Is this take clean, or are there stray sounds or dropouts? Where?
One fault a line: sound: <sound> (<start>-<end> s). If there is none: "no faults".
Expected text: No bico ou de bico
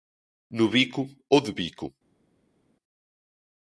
no faults